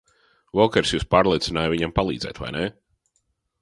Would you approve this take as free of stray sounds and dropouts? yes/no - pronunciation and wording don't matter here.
yes